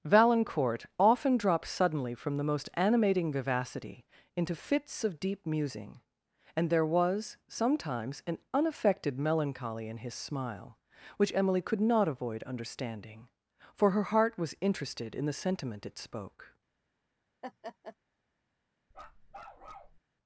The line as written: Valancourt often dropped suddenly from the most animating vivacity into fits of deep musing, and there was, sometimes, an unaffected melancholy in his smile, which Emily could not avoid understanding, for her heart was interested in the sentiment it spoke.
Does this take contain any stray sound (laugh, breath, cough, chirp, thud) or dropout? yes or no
yes